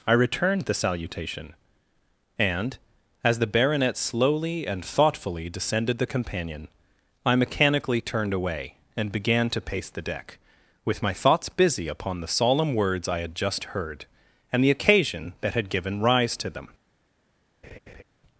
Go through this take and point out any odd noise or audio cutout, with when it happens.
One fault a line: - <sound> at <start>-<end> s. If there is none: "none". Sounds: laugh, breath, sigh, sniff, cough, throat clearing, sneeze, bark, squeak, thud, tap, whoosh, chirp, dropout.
- laugh at 17.6-18.0 s